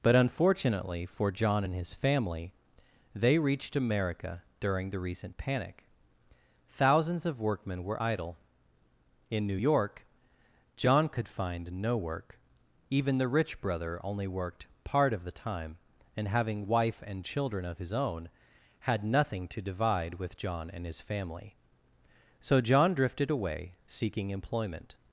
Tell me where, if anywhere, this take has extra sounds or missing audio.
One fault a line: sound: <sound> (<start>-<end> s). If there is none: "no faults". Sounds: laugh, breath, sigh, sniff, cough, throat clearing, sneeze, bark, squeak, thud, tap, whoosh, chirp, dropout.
no faults